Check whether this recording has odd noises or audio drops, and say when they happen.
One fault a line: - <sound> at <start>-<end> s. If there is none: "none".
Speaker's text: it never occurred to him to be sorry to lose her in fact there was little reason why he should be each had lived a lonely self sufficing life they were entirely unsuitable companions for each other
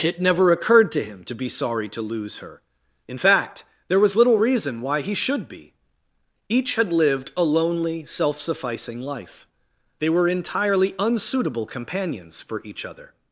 none